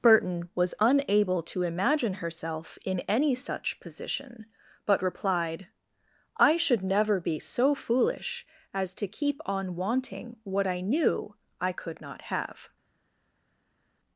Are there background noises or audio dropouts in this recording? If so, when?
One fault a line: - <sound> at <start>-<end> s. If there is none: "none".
none